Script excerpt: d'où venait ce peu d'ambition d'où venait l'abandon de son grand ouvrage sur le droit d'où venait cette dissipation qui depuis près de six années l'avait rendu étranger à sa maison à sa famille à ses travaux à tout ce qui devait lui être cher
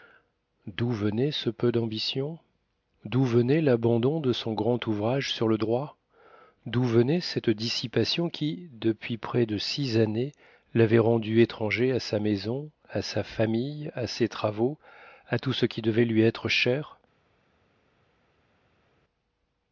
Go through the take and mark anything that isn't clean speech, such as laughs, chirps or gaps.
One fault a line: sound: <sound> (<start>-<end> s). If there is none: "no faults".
no faults